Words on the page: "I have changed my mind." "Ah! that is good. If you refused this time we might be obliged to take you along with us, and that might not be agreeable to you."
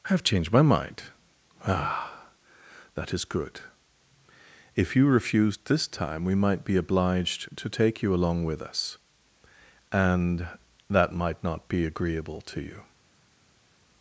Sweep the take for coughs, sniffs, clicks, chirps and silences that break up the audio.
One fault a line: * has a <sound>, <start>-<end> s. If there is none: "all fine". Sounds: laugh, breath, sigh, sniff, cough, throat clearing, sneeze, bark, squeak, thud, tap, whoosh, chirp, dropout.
all fine